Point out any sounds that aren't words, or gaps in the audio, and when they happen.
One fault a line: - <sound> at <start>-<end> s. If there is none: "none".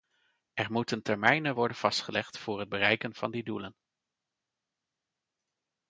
none